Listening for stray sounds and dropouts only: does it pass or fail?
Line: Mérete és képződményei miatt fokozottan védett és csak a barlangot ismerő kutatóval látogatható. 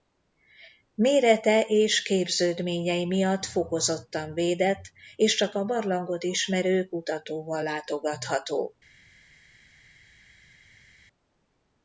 pass